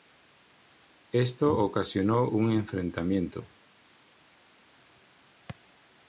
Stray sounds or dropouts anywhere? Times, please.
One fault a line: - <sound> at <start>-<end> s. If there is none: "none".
none